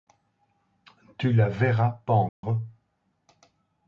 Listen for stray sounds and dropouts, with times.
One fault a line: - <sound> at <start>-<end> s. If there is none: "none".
- dropout at 2.3-2.4 s